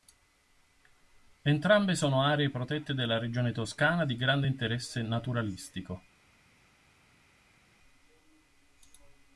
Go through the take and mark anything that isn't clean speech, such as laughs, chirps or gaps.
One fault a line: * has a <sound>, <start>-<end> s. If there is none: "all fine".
all fine